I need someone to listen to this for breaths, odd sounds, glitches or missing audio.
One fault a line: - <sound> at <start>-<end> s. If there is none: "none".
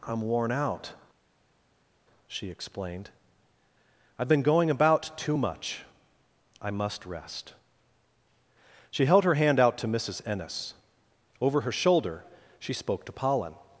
none